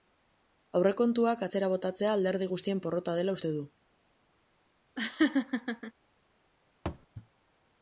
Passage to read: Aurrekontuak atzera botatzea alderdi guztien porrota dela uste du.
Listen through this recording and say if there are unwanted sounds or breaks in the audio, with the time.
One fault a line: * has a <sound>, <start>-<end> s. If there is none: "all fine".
* has a laugh, 5.0-5.9 s
* has a thud, 6.9-7.1 s